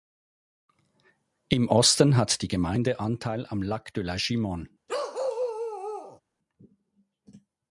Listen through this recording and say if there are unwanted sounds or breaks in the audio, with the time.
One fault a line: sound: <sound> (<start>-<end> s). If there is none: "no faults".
sound: bark (4.9-6.2 s)